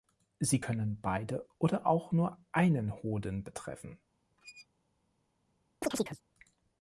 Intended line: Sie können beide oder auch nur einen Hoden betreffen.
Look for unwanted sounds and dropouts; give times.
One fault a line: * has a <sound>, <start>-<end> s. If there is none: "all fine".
* has a squeak, 4.4-4.7 s
* has a chirp, 5.8-6.2 s